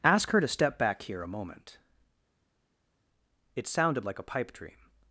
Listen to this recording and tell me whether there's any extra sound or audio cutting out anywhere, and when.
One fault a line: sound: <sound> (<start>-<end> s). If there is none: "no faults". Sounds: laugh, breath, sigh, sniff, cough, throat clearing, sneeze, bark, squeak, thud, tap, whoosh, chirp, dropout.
no faults